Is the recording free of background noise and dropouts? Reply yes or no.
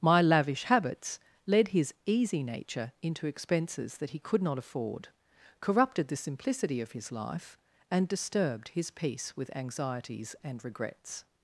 yes